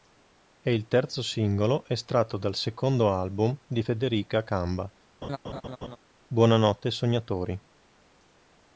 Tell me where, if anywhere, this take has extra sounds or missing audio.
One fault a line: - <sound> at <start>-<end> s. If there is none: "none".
- laugh at 5.2-6.0 s